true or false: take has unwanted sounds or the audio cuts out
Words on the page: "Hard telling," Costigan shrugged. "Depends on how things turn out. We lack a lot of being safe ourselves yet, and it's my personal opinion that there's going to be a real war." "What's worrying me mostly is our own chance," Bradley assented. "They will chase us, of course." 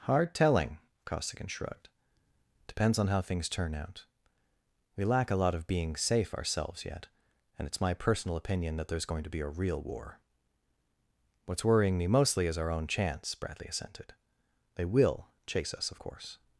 false